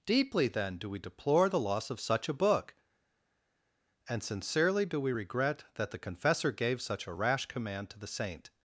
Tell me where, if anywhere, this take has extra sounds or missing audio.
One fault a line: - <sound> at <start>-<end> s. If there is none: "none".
none